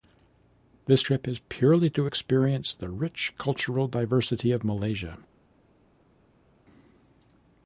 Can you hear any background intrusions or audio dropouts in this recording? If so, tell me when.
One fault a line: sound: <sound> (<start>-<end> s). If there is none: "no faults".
no faults